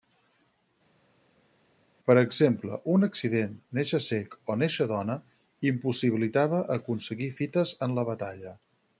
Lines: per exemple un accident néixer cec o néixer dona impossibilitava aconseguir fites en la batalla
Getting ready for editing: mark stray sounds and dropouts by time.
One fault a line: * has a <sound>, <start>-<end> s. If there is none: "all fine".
all fine